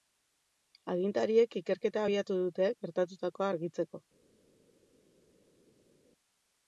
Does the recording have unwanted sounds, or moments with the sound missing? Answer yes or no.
no